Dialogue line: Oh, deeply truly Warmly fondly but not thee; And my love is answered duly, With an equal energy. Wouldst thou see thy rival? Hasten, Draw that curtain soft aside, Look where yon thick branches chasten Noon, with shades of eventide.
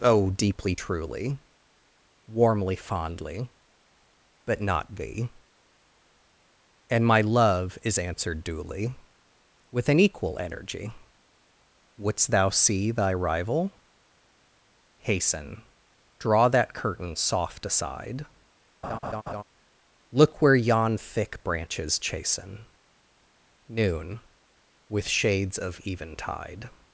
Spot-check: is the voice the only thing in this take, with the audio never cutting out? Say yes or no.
no